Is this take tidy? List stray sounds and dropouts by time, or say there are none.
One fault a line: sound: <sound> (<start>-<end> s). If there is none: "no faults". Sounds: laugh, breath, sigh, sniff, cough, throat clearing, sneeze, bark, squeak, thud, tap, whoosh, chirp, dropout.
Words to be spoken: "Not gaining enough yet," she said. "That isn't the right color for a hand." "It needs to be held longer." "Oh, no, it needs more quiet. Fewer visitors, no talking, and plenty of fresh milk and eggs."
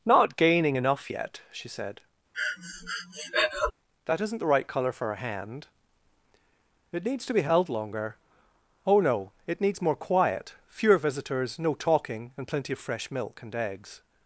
sound: breath (2.3-3.7 s)